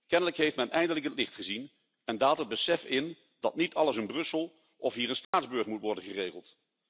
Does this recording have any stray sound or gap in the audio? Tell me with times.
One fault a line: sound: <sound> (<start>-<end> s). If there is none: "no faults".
sound: dropout (5.2-5.3 s)